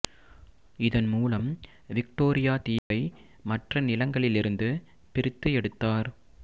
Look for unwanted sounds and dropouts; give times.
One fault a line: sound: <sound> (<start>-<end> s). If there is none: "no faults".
sound: dropout (2.8-2.9 s)